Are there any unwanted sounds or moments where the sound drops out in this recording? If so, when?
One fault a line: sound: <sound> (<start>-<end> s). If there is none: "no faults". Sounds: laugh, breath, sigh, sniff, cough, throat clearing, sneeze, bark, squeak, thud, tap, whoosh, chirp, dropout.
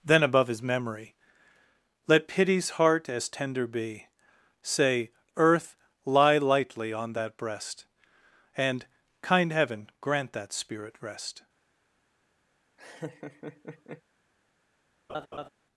sound: laugh (12.8-14.0 s)
sound: laugh (15.1-15.5 s)